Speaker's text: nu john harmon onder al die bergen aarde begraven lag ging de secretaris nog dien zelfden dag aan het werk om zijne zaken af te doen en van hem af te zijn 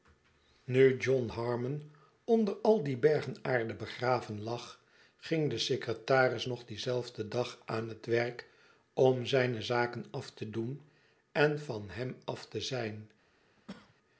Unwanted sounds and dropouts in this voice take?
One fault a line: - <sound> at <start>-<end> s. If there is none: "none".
- cough at 13.6-14.0 s